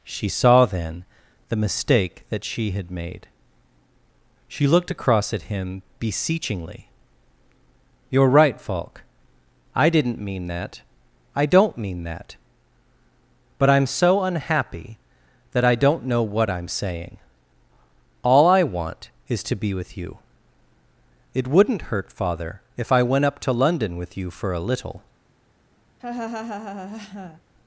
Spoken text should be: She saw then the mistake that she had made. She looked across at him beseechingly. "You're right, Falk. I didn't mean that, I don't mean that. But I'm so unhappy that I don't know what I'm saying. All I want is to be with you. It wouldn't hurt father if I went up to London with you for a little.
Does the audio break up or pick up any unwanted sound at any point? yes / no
yes